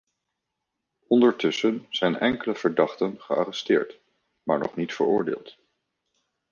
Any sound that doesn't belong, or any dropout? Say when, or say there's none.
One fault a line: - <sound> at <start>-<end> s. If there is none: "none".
none